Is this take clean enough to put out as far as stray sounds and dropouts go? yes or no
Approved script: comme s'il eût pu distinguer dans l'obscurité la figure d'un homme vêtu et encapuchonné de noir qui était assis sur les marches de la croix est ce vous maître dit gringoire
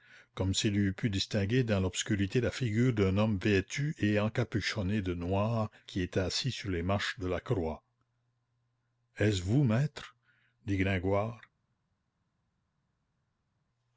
yes